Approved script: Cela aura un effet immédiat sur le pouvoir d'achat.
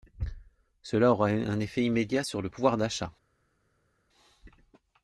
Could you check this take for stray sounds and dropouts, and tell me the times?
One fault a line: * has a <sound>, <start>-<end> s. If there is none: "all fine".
all fine